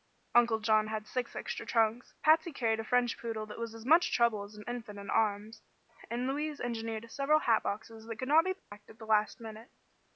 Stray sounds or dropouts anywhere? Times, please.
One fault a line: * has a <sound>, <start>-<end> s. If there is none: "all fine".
* has a dropout, 8.6-8.7 s